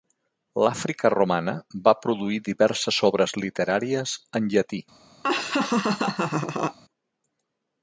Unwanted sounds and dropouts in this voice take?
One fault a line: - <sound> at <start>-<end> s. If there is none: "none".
- laugh at 5.2-6.8 s